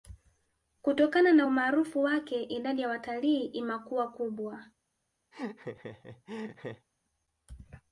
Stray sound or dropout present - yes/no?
yes